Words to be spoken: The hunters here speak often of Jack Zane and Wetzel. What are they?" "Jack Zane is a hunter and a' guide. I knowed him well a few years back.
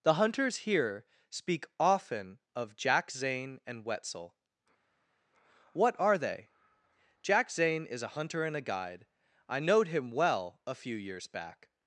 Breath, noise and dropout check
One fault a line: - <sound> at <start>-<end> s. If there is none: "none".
none